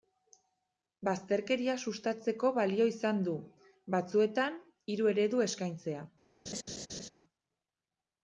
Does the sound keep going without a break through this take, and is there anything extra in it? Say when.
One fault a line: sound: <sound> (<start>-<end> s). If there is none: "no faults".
sound: laugh (6.5-7.1 s)